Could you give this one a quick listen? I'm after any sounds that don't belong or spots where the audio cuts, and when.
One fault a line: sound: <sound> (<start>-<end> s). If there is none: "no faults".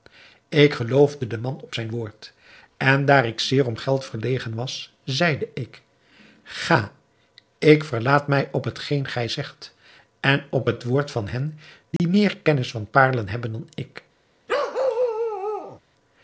sound: dropout (12.0-12.0 s)
sound: bark (14.5-15.8 s)